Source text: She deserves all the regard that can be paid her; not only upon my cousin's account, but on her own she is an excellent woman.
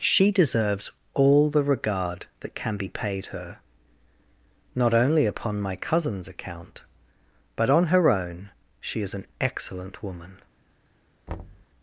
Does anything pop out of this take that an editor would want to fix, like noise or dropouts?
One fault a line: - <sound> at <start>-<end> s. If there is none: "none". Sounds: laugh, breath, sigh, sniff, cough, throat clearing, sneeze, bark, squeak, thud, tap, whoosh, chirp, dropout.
- thud at 11.3-11.7 s